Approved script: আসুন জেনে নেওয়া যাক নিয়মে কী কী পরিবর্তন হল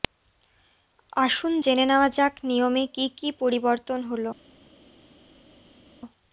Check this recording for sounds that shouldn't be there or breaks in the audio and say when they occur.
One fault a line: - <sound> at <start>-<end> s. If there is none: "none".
none